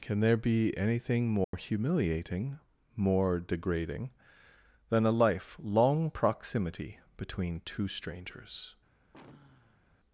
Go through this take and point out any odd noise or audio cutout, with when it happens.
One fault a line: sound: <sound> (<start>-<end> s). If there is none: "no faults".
sound: dropout (1.4-1.5 s)
sound: sigh (9.1-9.8 s)